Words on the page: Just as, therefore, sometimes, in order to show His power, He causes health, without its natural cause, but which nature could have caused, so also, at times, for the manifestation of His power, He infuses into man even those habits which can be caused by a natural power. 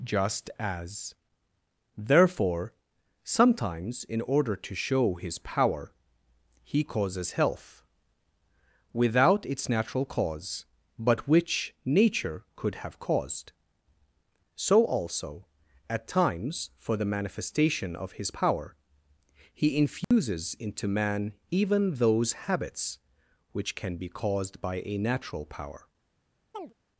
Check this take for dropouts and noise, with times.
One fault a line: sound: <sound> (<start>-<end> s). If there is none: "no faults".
sound: dropout (20.0-20.1 s)
sound: chirp (26.5-26.7 s)